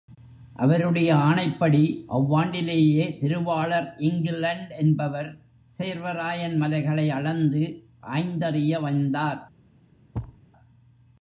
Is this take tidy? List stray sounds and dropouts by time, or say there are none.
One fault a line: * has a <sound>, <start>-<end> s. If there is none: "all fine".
* has a thud, 10.1-10.4 s